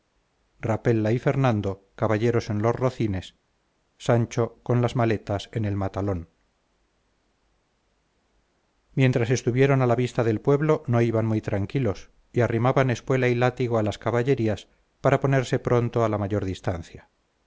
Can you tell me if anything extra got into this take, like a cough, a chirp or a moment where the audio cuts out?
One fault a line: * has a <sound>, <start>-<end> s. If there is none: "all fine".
all fine